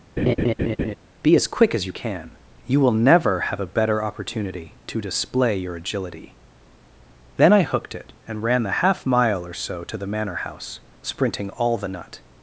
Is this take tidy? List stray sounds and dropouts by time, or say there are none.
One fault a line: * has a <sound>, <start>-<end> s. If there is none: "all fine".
* has a laugh, 0.2-1.0 s